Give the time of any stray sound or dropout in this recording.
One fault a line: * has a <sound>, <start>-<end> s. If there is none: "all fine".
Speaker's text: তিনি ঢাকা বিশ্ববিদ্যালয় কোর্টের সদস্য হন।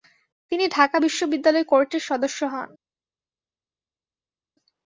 all fine